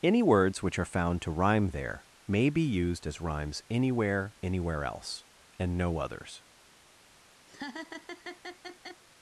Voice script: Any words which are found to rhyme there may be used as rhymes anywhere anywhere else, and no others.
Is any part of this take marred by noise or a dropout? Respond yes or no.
yes